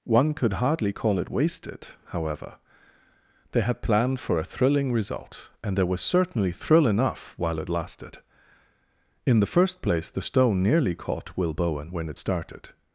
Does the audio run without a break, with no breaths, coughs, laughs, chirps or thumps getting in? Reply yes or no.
yes